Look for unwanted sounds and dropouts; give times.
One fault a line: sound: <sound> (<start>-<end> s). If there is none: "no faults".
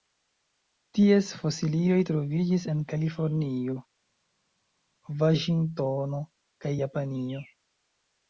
no faults